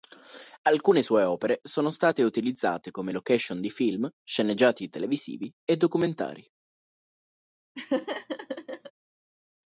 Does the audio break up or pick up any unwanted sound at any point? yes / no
yes